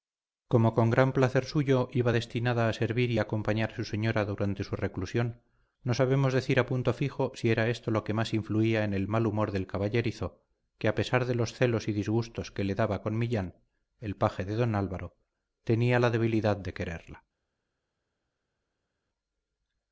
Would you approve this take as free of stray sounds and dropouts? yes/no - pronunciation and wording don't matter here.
yes